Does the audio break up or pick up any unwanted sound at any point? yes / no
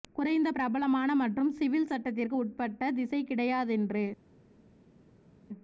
no